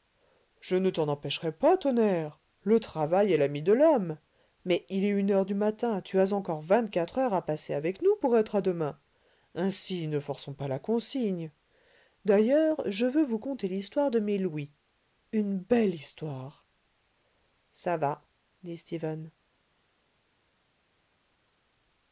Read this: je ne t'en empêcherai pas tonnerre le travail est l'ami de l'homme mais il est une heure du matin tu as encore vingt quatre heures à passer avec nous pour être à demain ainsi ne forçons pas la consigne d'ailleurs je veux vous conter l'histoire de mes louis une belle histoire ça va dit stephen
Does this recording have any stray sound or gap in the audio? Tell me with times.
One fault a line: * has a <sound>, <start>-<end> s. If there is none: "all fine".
all fine